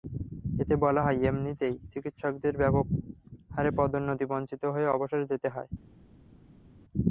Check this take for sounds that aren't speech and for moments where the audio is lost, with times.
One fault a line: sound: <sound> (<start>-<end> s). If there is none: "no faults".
no faults